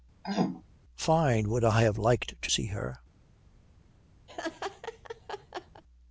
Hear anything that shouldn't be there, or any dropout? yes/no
yes